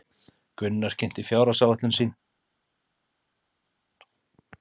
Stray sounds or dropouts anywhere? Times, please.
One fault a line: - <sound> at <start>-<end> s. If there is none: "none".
none